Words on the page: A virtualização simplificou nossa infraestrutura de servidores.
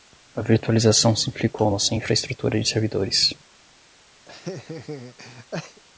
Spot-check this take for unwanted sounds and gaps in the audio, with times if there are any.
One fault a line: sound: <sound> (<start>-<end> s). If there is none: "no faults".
sound: laugh (4.3-5.8 s)